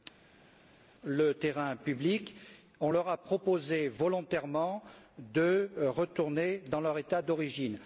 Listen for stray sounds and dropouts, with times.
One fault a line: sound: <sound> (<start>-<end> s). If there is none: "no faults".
no faults